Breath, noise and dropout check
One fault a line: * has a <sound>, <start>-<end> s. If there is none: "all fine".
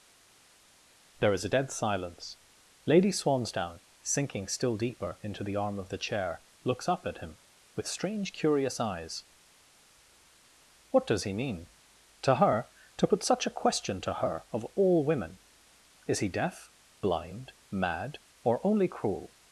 all fine